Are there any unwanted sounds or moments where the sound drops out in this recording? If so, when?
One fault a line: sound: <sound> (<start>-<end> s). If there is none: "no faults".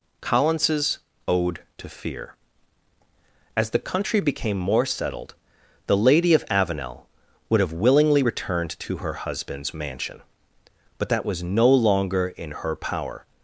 no faults